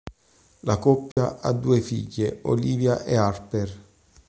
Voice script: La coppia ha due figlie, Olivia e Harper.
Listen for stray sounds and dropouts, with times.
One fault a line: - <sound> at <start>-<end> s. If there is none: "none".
- dropout at 1.1-1.2 s